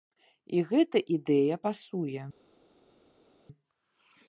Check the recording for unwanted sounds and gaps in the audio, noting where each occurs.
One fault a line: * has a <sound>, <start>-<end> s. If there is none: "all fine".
all fine